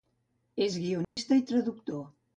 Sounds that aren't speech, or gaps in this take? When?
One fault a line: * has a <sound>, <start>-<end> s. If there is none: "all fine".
* has a dropout, 1.0-1.2 s